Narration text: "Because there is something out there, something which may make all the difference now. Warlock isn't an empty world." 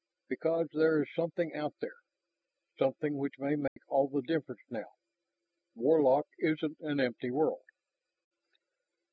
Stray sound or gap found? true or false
true